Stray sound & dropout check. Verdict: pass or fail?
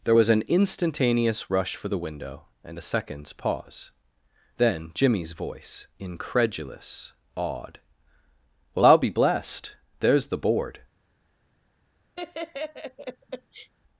fail